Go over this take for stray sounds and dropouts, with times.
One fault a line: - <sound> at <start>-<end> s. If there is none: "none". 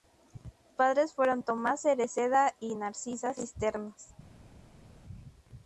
none